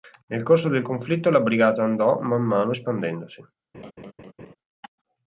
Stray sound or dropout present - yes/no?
yes